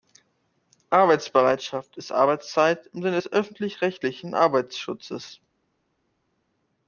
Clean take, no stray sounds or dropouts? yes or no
yes